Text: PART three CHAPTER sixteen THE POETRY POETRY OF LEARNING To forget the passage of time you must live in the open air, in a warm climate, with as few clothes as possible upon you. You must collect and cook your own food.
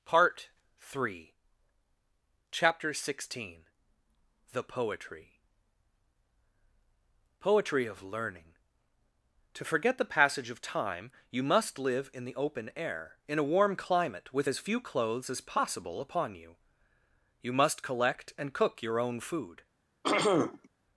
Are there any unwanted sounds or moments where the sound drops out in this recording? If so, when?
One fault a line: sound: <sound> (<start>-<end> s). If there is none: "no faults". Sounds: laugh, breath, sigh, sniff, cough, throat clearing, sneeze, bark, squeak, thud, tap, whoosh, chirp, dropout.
sound: throat clearing (20.0-20.7 s)